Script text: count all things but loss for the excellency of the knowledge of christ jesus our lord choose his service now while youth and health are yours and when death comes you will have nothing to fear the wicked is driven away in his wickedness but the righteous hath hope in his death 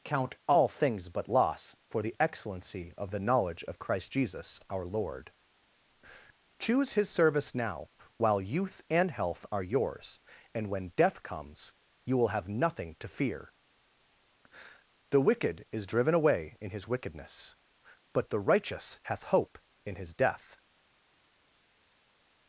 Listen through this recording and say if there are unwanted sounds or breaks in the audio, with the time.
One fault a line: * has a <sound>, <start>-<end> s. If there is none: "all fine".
all fine